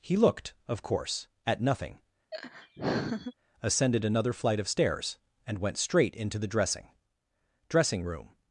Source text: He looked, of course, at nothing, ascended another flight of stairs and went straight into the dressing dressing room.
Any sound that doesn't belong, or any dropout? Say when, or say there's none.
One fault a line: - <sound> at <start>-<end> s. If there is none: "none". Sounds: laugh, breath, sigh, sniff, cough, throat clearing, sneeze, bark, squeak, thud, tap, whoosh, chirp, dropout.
- laugh at 2.3-3.3 s